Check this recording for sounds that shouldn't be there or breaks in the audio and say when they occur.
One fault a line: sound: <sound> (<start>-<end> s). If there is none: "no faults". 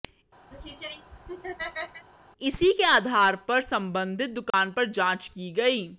sound: laugh (0.5-2.1 s)
sound: dropout (4.5-4.5 s)